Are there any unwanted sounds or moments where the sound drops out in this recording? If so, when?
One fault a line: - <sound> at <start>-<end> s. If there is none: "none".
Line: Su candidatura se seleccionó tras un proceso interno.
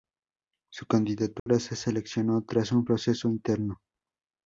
- dropout at 1.4-1.5 s